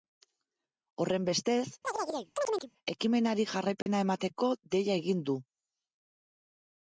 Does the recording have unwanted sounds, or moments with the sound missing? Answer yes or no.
yes